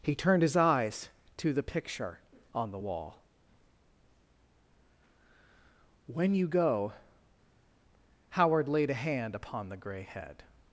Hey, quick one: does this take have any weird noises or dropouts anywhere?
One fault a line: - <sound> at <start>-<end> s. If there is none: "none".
none